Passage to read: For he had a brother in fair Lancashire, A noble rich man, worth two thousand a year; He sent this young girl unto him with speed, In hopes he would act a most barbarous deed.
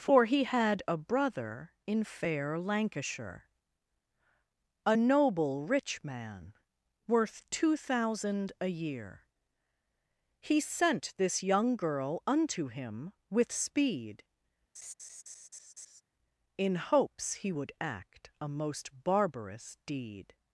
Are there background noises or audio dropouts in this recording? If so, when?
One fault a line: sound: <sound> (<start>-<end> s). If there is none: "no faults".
sound: laugh (14.7-16.0 s)